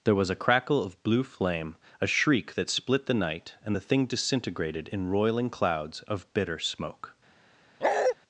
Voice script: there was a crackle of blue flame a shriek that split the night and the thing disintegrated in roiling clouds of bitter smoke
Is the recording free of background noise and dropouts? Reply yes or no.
no